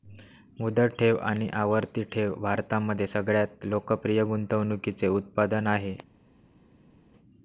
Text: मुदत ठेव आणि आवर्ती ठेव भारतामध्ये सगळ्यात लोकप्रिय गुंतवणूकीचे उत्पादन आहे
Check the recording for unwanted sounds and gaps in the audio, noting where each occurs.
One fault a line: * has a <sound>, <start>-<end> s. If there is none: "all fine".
all fine